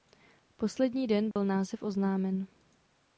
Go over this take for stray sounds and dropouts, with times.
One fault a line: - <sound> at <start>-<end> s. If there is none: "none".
- dropout at 1.3-1.4 s